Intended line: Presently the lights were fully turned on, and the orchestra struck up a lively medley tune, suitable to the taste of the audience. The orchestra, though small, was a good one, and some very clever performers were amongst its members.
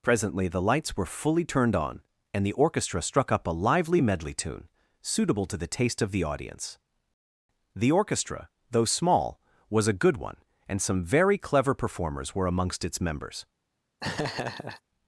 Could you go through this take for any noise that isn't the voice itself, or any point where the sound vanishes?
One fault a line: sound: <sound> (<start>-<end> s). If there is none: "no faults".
sound: laugh (14.0-14.8 s)